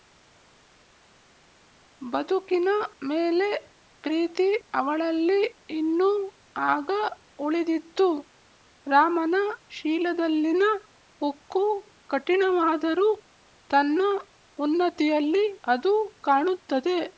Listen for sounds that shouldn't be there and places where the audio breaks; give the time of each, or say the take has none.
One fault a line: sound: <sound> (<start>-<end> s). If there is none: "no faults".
no faults